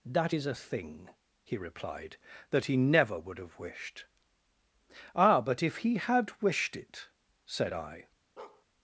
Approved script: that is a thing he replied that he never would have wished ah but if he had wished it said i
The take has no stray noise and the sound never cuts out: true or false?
false